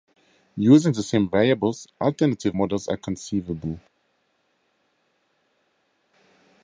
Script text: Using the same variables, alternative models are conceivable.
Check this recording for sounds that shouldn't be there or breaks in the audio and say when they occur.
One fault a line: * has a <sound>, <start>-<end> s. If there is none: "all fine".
all fine